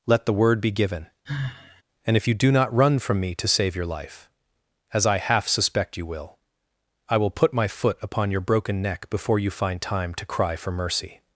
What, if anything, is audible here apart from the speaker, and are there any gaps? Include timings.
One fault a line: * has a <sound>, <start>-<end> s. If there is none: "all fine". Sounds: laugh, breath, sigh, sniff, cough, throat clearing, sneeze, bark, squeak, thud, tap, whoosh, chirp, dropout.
* has a sigh, 1.3-1.8 s